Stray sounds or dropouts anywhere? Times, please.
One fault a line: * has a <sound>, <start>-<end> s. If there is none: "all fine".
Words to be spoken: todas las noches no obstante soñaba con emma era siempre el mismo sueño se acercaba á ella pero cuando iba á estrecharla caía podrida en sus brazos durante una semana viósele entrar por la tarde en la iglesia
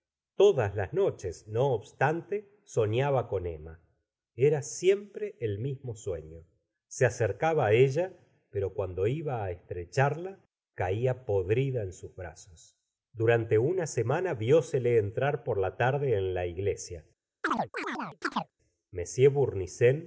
* has a chirp, 17.4-18.5 s